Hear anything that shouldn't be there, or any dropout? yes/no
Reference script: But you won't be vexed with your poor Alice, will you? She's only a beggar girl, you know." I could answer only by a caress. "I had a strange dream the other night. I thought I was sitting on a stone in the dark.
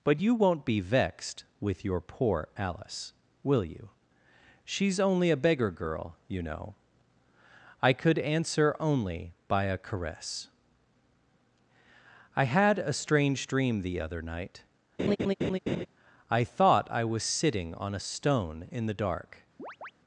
yes